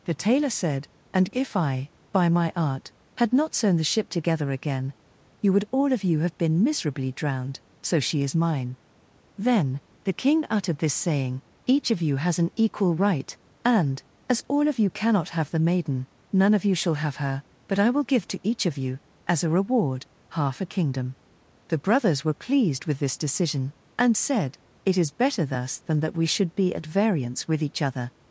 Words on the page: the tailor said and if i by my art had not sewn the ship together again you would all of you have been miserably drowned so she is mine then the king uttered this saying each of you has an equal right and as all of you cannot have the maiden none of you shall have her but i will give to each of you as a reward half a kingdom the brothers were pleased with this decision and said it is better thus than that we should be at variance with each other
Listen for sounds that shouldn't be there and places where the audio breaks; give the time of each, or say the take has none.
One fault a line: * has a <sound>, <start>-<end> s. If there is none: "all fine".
all fine